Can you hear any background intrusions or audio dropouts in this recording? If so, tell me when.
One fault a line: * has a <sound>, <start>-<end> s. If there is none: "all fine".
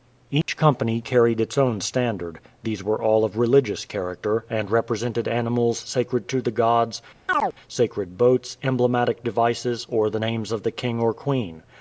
* has a dropout, 0.4-0.5 s
* has a chirp, 7.3-7.5 s